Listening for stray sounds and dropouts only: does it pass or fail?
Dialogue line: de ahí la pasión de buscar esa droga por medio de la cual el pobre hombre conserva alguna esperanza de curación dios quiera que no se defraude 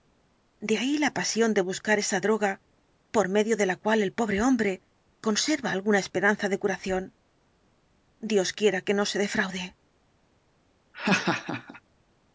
fail